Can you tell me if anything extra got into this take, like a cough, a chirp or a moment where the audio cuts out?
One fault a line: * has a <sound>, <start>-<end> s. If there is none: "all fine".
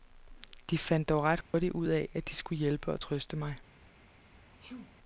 * has a dropout, 1.4-1.5 s
* has a sneeze, 4.6-5.0 s